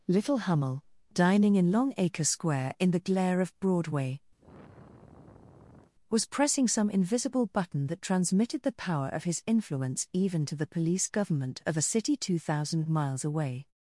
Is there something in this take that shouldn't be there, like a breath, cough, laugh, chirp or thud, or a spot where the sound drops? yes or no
yes